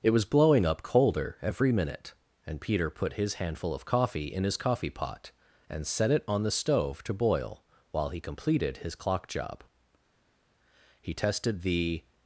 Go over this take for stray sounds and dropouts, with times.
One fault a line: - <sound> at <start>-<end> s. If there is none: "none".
none